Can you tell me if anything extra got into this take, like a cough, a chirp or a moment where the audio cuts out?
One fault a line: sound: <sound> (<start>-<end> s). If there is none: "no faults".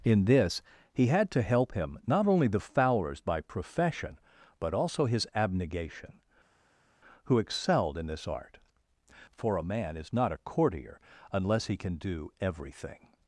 no faults